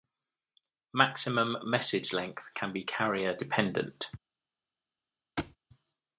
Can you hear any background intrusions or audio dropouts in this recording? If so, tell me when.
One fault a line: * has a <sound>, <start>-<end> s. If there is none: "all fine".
* has a thud, 5.4-5.6 s